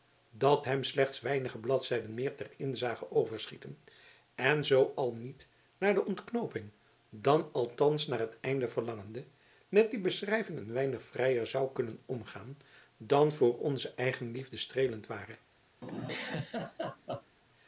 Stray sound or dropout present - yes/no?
yes